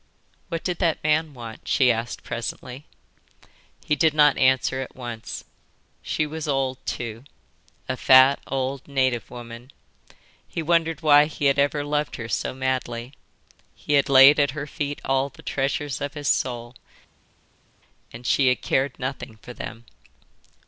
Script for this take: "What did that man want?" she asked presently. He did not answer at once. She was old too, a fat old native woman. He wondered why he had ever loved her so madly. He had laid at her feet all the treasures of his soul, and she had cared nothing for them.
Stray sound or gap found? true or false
false